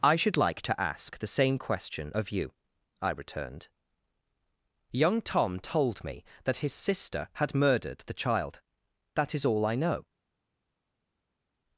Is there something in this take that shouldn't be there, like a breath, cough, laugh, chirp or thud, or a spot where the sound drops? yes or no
no